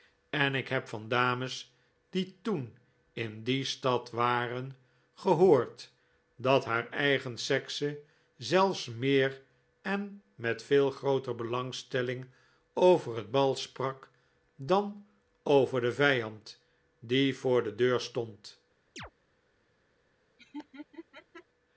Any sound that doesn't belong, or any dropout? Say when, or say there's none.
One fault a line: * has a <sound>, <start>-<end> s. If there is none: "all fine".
* has a chirp, 19.0-19.1 s
* has a laugh, 20.4-21.5 s